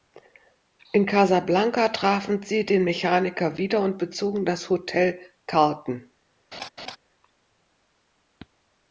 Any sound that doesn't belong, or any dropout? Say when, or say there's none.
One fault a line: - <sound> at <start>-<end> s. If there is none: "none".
- laugh at 6.5-7.0 s